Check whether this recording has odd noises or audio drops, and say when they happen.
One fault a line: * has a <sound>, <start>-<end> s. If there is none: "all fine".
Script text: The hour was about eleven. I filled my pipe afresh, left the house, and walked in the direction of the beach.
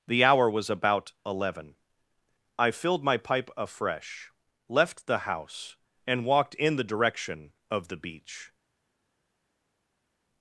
all fine